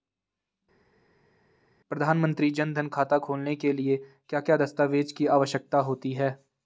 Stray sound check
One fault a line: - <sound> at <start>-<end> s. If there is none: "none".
none